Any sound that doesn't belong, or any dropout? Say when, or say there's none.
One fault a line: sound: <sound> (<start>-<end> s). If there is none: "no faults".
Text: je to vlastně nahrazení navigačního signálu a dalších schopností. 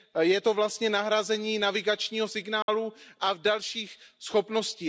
sound: dropout (2.6-2.7 s)